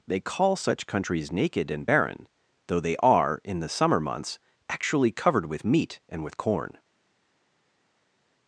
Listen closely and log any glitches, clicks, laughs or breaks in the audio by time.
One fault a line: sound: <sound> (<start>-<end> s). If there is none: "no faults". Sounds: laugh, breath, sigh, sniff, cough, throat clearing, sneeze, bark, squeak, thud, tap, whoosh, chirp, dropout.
no faults